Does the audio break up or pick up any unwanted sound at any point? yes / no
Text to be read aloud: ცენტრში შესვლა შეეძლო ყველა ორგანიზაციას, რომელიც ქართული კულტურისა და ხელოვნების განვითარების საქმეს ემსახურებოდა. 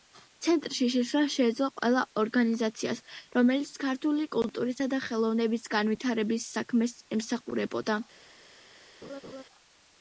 yes